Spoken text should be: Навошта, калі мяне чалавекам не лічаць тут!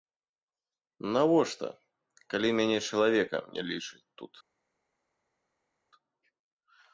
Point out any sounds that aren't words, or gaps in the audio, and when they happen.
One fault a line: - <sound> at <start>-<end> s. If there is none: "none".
none